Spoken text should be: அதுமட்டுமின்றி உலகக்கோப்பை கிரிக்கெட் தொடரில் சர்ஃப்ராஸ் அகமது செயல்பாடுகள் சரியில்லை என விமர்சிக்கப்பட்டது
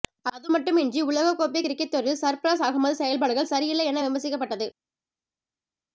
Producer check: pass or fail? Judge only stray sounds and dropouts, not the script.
pass